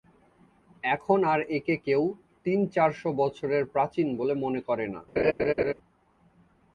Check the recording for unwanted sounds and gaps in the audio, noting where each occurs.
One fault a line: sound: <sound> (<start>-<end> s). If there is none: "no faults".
sound: laugh (5.2-5.7 s)